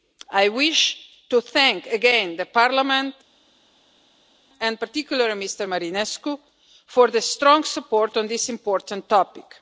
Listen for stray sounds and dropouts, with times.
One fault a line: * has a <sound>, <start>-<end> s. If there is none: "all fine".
all fine